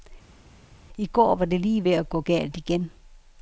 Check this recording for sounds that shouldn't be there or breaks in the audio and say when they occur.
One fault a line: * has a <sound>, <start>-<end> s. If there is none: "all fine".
all fine